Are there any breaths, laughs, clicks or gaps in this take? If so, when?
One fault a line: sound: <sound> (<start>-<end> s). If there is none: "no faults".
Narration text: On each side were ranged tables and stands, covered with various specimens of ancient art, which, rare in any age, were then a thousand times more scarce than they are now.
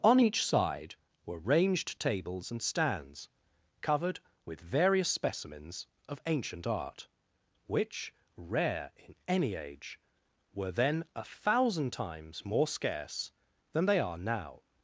no faults